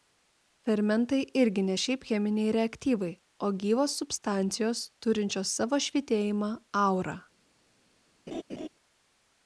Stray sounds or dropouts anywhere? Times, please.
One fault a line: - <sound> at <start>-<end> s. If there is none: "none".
- laugh at 8.3-8.7 s